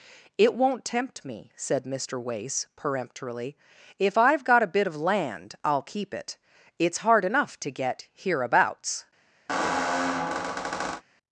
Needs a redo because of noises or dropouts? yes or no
yes